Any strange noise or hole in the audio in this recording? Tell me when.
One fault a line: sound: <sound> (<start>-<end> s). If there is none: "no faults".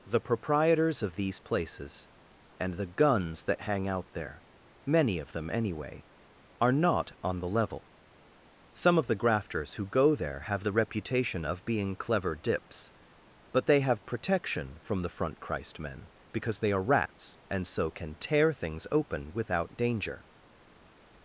no faults